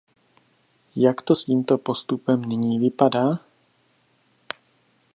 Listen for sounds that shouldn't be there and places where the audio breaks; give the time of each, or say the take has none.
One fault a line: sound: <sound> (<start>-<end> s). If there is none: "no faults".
no faults